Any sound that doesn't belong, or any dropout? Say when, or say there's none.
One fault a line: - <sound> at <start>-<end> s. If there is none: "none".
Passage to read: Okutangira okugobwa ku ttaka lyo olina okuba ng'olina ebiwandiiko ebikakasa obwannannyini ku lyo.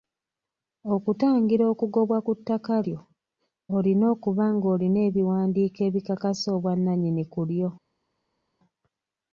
none